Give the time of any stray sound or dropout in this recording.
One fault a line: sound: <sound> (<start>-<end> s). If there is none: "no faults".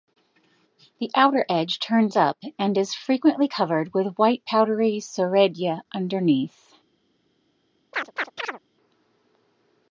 sound: chirp (7.9-8.6 s)